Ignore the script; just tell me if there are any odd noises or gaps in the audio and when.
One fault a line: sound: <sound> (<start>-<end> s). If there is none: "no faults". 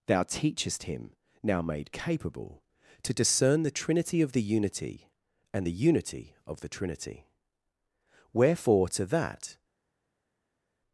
no faults